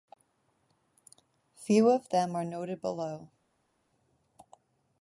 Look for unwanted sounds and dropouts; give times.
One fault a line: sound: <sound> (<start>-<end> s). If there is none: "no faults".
no faults